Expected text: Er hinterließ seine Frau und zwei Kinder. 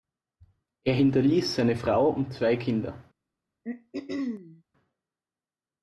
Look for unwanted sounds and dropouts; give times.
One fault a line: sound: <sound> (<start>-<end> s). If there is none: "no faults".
sound: throat clearing (3.6-4.6 s)